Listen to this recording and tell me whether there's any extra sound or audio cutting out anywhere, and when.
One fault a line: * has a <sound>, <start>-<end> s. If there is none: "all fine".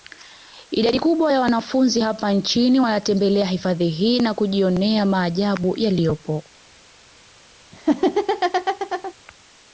* has a laugh, 7.7-9.1 s